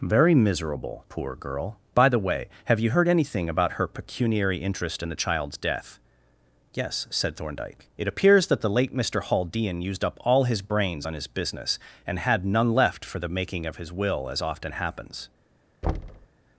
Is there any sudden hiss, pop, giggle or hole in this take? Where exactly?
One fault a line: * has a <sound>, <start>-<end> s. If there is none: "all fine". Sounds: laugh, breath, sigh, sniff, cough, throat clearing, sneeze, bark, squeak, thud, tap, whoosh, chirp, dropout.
* has a thud, 15.8-16.3 s